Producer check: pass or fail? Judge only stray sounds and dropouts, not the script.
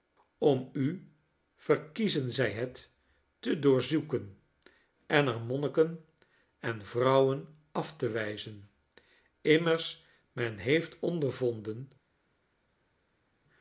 pass